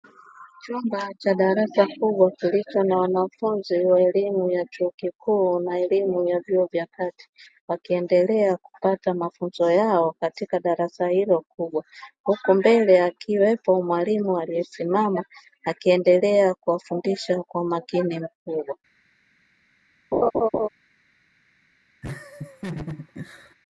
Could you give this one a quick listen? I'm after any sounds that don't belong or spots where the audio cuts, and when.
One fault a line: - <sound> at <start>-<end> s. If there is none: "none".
- laugh at 20.1-20.7 s
- laugh at 22.0-23.5 s